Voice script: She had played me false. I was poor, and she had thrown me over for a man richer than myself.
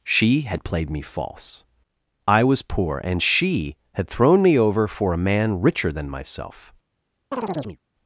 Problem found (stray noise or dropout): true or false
true